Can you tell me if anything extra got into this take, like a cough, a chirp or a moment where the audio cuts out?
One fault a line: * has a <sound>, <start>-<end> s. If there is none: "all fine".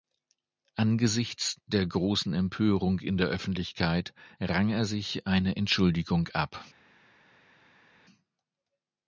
all fine